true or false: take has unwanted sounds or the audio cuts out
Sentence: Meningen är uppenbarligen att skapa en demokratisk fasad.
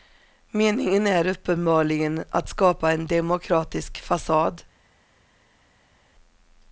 false